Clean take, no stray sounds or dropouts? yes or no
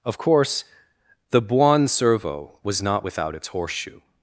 yes